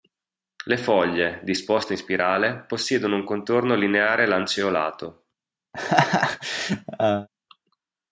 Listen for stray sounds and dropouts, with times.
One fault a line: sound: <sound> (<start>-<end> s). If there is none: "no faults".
sound: laugh (5.7-7.3 s)